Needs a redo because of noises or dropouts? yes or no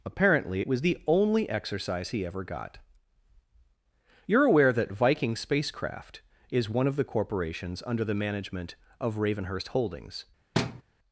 yes